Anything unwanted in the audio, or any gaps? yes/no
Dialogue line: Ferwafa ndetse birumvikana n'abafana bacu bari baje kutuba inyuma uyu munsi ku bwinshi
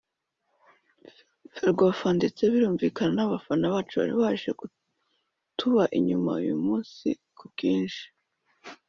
no